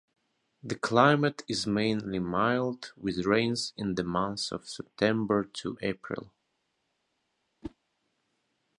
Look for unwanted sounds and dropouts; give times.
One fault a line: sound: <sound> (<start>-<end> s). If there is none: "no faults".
sound: whoosh (7.6-7.8 s)